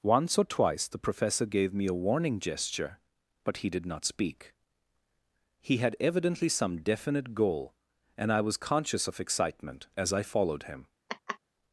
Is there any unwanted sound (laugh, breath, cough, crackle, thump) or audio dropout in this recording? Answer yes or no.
yes